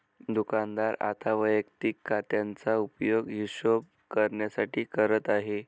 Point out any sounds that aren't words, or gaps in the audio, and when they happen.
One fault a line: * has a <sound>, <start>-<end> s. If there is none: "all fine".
all fine